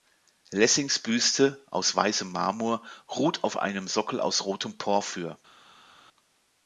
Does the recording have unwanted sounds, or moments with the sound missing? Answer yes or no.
no